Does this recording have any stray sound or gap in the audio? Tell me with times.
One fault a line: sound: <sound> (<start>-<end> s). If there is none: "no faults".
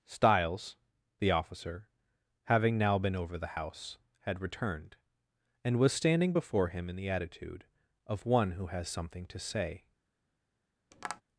sound: tap (10.9-11.2 s)